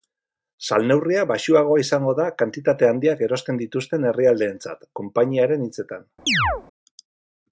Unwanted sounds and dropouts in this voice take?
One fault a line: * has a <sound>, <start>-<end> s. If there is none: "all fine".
* has a chirp, 6.3-6.6 s